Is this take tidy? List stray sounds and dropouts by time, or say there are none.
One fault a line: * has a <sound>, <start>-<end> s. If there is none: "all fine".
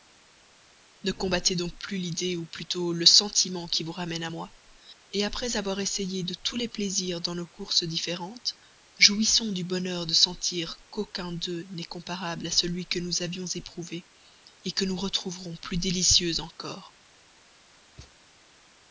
* has a thud, 18.0-18.2 s